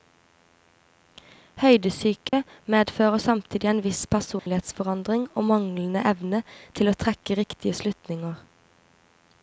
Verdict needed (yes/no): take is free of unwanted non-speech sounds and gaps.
no